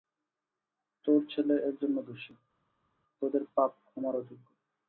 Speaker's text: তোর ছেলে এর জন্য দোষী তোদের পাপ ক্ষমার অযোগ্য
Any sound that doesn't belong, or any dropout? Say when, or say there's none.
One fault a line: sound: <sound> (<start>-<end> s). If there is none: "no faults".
no faults